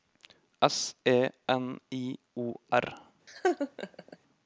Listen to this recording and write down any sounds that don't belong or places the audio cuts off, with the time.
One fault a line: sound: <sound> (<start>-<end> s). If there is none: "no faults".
sound: laugh (3.3-4.2 s)